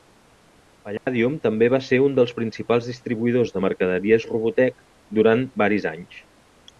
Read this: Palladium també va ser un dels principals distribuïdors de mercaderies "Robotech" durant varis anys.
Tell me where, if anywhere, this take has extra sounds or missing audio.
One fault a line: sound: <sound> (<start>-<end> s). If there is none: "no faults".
sound: dropout (1.0-1.1 s)